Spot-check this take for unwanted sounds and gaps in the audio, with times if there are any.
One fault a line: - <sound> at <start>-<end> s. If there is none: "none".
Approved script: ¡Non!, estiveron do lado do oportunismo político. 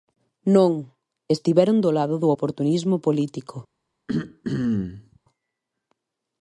- throat clearing at 4.1-5.2 s